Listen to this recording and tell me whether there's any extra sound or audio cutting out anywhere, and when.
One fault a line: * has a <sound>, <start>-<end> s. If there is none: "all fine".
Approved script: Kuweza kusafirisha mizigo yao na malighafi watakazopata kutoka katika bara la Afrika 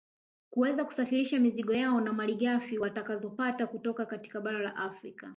all fine